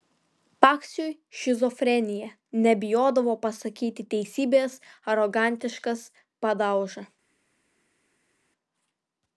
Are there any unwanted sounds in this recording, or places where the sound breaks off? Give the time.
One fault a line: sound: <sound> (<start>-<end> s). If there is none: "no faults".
no faults